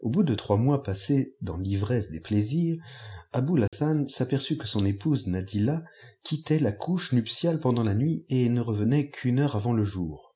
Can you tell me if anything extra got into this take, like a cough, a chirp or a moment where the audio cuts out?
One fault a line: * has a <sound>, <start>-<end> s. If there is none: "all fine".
* has a dropout, 3.7-3.7 s